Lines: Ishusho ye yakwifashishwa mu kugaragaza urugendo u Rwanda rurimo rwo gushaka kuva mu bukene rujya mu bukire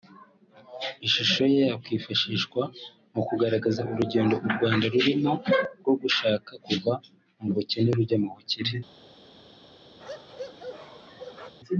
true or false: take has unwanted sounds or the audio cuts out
true